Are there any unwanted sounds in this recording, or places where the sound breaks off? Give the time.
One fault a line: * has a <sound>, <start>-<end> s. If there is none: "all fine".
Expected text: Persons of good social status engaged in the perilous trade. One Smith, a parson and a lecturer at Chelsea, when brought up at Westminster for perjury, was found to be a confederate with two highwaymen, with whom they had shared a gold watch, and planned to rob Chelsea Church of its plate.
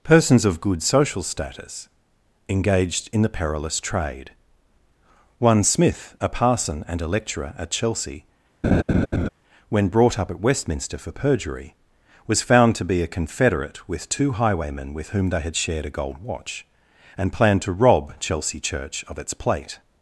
* has a laugh, 8.6-9.3 s